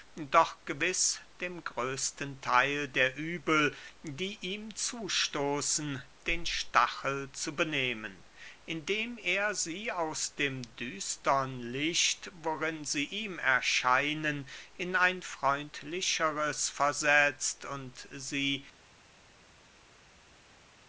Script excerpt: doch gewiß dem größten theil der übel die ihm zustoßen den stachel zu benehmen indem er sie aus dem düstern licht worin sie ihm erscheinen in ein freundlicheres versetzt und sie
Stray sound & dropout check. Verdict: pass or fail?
pass